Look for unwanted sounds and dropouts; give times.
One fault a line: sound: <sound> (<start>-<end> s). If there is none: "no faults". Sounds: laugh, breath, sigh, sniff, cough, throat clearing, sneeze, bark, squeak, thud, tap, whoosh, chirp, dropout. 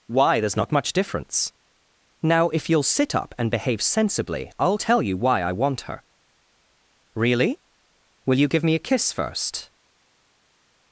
no faults